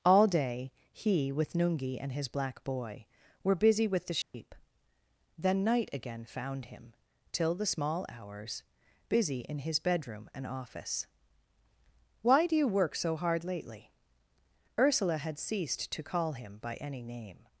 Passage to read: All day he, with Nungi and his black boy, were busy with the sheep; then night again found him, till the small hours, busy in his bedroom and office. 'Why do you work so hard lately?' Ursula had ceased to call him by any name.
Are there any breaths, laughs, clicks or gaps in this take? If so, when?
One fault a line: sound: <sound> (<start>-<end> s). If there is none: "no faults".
sound: dropout (4.2-4.3 s)